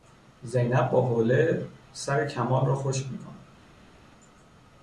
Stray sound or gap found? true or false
false